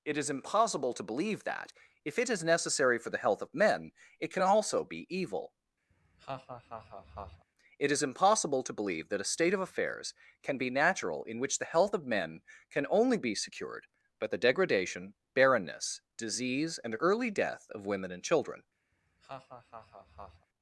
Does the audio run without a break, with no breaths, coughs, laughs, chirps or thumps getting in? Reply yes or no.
no